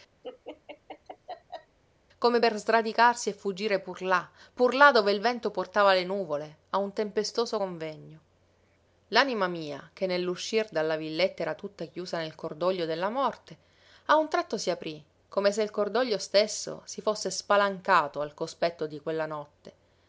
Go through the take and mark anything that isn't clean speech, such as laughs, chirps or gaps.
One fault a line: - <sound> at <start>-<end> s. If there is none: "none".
- laugh at 0.2-1.8 s